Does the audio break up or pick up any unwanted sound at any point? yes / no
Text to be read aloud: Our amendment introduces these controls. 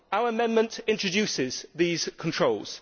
no